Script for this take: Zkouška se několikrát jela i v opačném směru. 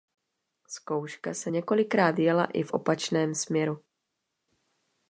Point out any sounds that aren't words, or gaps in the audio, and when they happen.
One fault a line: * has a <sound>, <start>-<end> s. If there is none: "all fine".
all fine